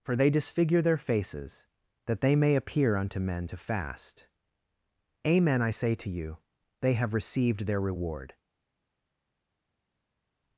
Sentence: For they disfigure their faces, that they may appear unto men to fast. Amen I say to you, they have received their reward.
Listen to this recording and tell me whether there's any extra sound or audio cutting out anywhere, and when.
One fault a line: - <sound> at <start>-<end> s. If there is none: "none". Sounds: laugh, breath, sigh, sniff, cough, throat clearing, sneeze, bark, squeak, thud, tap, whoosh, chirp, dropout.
none